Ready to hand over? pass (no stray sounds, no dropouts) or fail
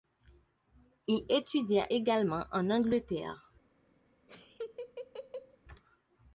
fail